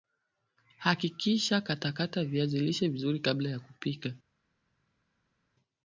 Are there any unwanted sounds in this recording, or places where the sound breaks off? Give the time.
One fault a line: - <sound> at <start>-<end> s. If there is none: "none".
none